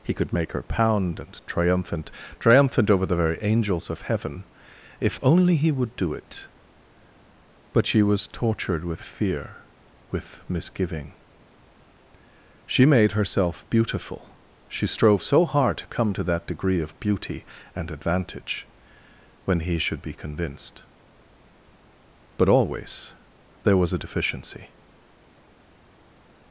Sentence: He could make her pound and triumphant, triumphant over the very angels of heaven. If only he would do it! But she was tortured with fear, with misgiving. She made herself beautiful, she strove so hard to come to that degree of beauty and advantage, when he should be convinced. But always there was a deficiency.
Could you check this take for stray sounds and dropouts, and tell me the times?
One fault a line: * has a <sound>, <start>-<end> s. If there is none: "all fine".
all fine